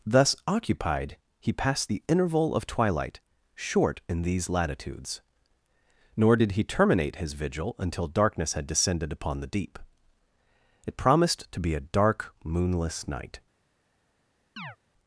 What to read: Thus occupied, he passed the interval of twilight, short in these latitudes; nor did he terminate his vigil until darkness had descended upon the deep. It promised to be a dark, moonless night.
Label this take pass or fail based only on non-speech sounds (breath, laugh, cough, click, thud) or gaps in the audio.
fail